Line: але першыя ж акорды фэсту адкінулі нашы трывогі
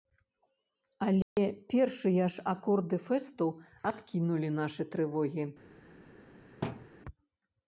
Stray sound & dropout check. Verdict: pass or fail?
fail